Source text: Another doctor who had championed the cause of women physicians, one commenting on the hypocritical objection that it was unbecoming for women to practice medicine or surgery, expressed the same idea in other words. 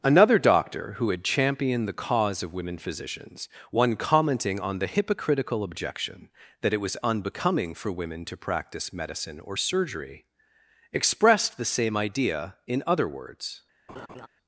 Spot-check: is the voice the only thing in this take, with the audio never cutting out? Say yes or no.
no